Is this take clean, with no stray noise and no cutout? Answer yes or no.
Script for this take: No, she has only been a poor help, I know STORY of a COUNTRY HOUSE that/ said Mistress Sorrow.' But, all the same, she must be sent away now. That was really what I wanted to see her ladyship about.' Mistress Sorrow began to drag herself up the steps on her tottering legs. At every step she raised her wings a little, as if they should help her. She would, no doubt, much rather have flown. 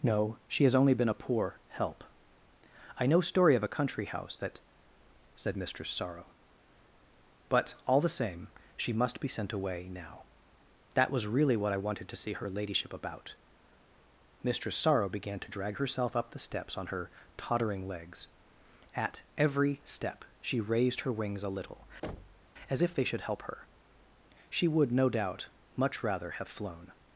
no